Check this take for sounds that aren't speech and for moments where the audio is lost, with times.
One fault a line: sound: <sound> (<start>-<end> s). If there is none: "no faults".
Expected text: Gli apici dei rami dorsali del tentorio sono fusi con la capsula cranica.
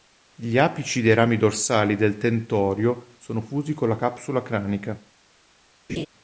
sound: laugh (5.9-6.1 s)